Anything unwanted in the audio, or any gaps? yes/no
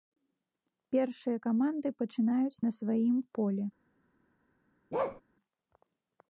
yes